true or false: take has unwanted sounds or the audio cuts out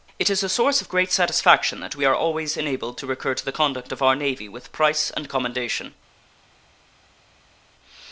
false